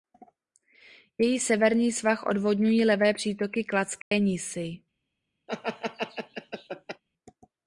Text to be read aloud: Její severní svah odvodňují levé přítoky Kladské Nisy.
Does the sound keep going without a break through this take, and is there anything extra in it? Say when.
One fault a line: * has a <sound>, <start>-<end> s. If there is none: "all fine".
* has a dropout, 4.0-4.1 s
* has a laugh, 5.5-7.0 s